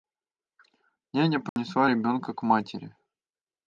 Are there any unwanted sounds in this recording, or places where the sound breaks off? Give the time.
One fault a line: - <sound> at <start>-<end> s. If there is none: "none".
- dropout at 1.5-1.6 s